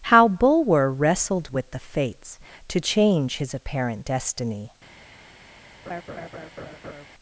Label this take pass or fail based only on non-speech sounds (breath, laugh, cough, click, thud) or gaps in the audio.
fail